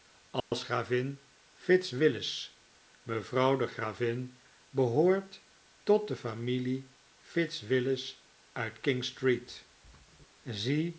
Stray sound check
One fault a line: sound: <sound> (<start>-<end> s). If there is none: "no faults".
sound: dropout (0.4-0.5 s)